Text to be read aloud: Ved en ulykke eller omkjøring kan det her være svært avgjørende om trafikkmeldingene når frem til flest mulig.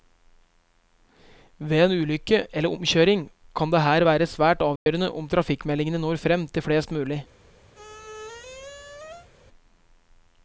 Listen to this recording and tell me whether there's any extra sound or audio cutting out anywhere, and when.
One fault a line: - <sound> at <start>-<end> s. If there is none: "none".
- dropout at 4.8-4.9 s
- squeak at 7.7-9.3 s